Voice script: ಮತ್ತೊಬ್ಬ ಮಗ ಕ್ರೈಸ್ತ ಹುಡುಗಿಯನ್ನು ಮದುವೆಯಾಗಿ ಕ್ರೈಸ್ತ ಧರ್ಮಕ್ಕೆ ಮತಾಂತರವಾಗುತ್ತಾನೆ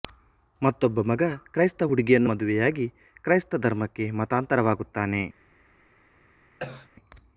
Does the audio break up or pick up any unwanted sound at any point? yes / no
yes